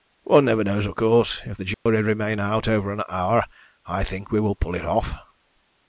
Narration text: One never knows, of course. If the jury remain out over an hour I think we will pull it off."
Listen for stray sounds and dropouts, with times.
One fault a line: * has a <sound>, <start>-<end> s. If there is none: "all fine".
* has a dropout, 1.7-1.9 s